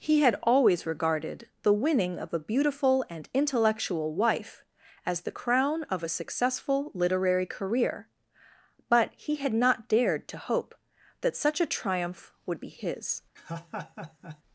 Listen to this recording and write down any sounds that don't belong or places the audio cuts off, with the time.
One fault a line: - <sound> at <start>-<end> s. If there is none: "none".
- laugh at 13.4-14.4 s